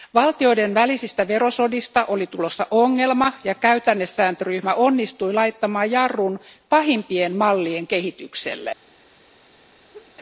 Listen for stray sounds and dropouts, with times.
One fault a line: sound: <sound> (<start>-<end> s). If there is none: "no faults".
sound: laugh (9.9-10.1 s)